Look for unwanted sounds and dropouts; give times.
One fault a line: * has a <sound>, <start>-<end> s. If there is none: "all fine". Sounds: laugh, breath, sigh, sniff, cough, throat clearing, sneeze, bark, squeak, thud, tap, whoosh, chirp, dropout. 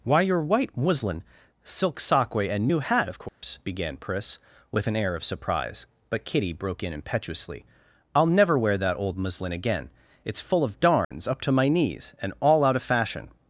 * has a dropout, 3.3-3.4 s
* has a dropout, 11.0-11.1 s